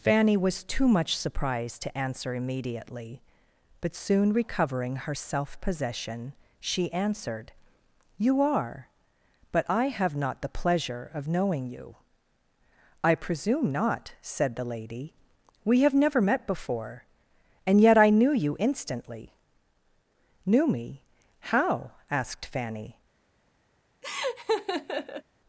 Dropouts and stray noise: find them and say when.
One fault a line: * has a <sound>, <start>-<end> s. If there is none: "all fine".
* has a laugh, 24.0-25.2 s